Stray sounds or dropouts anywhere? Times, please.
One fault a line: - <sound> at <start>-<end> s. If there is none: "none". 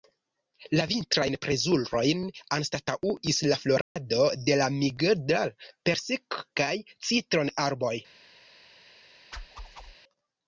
- dropout at 3.8-4.0 s
- whoosh at 9.3-10.0 s